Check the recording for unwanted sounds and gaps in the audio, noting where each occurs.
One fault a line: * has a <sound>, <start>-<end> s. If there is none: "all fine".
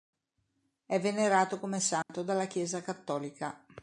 * has a dropout, 2.0-2.1 s